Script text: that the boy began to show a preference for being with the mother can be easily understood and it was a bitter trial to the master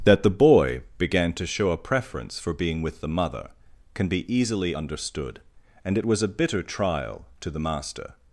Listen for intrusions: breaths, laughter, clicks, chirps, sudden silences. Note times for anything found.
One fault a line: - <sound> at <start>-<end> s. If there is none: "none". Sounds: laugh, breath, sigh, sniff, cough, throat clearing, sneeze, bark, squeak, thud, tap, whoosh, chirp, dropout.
none